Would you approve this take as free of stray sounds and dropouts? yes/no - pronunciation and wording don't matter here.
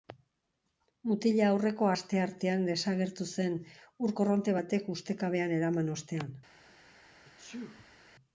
no